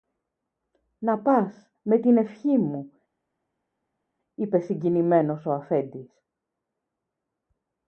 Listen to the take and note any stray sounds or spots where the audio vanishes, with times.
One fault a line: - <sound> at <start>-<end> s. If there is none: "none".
none